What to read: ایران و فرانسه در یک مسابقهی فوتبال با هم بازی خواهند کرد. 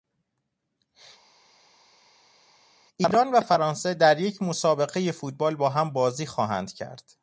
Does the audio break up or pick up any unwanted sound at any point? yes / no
no